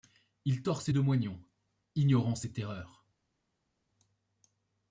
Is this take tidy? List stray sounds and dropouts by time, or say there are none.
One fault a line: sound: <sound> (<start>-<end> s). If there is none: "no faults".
no faults